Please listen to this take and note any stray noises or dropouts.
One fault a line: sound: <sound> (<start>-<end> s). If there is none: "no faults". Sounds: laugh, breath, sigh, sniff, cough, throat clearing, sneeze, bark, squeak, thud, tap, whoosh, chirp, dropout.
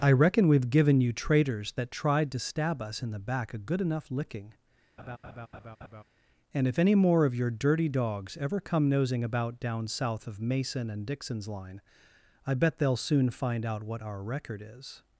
sound: laugh (5.0-6.0 s)